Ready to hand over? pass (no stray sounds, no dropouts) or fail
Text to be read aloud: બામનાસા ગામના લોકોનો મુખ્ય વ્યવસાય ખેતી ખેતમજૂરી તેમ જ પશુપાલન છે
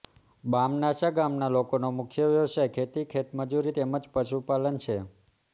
pass